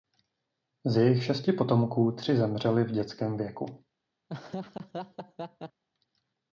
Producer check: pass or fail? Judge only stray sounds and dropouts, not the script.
fail